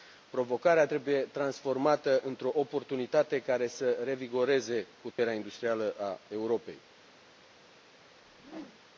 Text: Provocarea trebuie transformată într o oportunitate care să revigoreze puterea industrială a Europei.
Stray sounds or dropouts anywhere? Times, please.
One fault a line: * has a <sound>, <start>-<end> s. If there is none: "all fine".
* has a dropout, 5.1-5.2 s
* has a whoosh, 8.1-8.8 s